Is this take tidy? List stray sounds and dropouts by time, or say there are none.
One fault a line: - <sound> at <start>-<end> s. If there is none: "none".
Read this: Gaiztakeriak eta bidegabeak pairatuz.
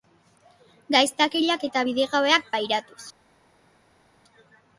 none